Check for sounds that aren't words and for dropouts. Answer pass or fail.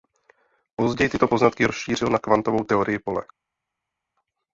pass